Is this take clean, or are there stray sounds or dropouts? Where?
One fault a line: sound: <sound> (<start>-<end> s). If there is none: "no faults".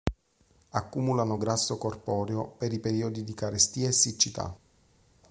no faults